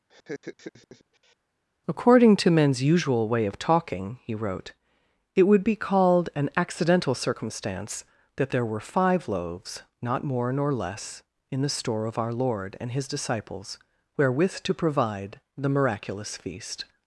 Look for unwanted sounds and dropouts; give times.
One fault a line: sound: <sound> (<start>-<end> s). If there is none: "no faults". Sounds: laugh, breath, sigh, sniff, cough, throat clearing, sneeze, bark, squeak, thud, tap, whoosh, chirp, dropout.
sound: laugh (0.1-1.4 s)